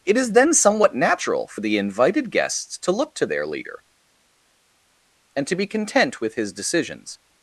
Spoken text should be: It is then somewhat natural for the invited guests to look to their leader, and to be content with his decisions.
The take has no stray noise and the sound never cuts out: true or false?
true